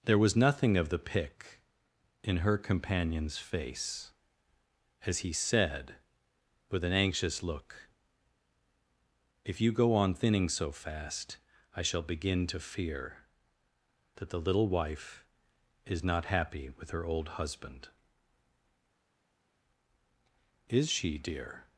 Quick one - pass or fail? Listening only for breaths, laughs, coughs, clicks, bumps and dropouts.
pass